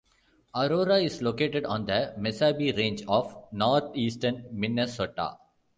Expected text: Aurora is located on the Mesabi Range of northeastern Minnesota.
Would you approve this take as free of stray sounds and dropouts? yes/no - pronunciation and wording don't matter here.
yes